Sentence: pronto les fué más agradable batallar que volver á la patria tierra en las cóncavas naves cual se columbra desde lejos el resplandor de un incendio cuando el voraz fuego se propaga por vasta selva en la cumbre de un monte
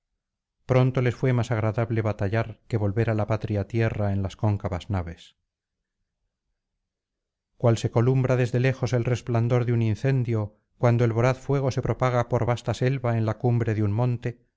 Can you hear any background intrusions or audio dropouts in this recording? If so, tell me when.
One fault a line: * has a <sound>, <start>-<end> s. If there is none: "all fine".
all fine